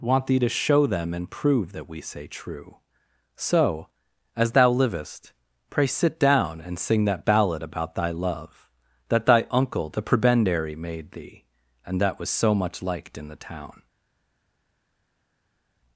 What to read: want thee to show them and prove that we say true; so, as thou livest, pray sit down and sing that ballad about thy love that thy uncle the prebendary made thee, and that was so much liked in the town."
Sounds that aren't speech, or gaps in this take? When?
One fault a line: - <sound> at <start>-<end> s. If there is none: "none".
none